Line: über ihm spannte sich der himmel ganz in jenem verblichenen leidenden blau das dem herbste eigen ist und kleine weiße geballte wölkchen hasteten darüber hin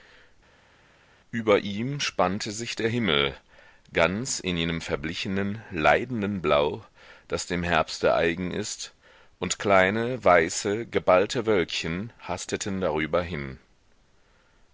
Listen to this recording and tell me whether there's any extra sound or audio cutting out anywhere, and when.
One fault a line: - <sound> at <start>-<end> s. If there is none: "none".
none